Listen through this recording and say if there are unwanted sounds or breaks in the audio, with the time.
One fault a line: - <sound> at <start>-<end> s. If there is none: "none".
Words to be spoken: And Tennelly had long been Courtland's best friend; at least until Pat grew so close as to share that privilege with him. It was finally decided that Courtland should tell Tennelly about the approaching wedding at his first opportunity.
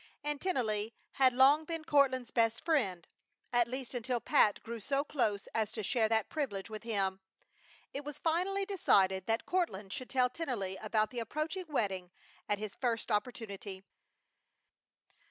none